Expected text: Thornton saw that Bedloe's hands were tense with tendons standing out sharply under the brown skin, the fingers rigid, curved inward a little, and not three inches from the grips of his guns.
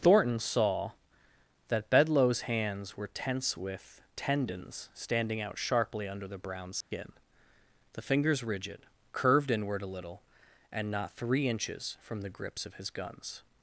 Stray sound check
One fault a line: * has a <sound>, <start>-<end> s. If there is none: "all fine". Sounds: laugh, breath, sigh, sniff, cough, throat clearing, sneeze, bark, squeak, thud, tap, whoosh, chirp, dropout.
* has a dropout, 6.8-6.9 s